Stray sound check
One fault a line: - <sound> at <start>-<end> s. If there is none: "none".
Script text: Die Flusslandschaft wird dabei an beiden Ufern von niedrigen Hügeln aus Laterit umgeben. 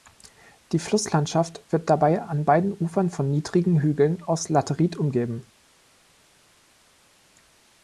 none